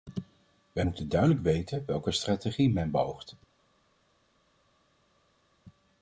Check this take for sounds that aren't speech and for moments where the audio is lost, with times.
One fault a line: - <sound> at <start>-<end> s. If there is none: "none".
none